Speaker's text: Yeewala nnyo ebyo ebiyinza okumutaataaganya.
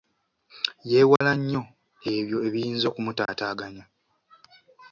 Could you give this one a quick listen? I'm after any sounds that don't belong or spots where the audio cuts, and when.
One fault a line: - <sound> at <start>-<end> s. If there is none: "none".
- dropout at 1.2-1.2 s
- dropout at 3.3-3.3 s